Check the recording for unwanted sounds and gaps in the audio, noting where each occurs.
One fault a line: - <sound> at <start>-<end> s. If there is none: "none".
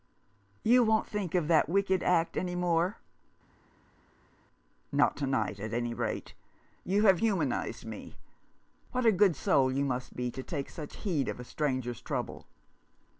none